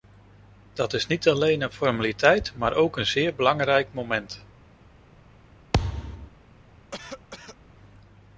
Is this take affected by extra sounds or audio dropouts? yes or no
yes